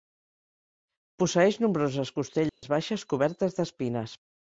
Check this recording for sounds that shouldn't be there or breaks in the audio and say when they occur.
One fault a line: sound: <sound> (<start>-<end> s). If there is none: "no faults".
sound: dropout (2.5-2.6 s)